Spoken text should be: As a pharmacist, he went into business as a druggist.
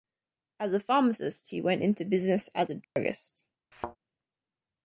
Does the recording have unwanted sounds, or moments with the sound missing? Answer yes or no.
yes